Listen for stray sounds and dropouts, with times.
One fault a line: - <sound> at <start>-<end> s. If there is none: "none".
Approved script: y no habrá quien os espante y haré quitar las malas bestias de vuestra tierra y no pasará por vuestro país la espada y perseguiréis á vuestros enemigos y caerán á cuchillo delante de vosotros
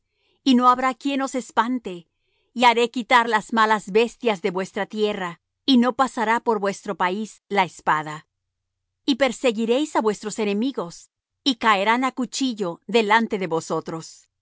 none